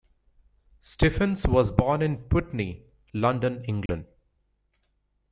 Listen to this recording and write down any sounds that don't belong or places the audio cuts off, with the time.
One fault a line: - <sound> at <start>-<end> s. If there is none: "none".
- dropout at 3.9-3.9 s